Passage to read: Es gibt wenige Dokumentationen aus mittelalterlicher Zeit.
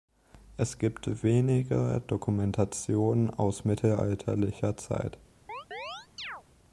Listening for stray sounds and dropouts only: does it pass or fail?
fail